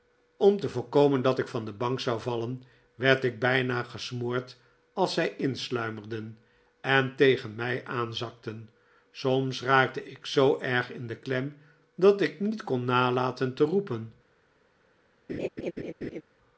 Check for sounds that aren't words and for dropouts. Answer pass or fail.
fail